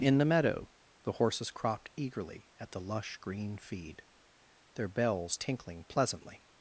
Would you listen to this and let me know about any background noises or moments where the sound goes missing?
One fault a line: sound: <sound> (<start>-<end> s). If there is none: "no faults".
no faults